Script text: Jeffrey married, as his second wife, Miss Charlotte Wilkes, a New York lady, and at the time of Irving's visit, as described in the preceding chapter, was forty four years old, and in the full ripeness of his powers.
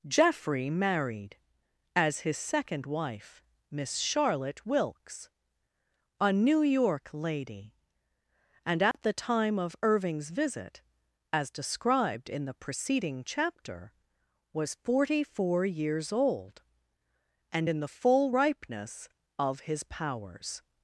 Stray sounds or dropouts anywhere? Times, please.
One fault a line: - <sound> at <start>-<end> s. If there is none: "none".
- dropout at 8.9-8.9 s